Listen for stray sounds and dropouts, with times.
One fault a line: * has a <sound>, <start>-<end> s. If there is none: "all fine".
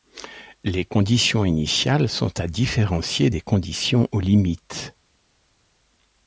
all fine